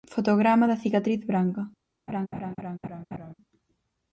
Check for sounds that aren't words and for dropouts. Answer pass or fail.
fail